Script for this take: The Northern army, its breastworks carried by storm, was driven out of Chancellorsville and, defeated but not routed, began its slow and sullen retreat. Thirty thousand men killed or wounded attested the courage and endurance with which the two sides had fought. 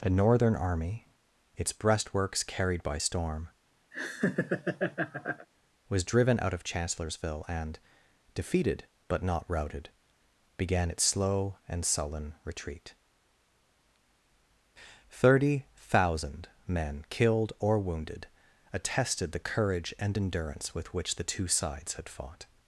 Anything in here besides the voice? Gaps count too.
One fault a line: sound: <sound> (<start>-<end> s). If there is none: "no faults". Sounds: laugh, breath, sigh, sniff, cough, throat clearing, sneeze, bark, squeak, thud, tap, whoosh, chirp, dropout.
sound: laugh (3.9-5.5 s)